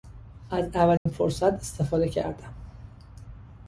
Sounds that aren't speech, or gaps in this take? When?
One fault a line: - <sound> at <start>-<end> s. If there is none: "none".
- dropout at 1.0-1.1 s